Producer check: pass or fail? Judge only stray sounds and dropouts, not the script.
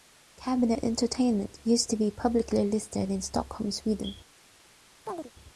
fail